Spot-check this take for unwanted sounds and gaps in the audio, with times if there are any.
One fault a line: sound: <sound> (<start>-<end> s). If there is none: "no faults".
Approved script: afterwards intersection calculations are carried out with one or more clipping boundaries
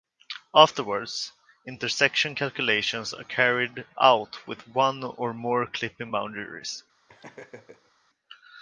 sound: laugh (7.1-7.9 s)